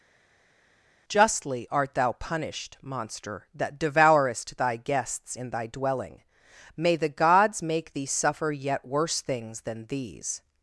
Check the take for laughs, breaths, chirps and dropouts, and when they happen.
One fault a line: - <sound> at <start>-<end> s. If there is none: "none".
none